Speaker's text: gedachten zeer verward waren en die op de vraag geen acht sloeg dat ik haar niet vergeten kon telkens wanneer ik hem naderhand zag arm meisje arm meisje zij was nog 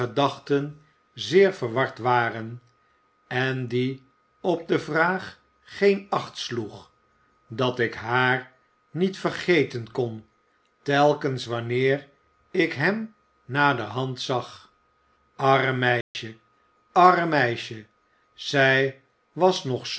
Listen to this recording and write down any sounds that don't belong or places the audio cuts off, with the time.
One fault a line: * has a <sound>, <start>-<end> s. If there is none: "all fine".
* has a dropout, 16.0-16.1 s